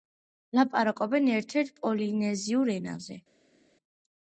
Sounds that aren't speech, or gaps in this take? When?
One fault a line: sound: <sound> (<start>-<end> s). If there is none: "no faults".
no faults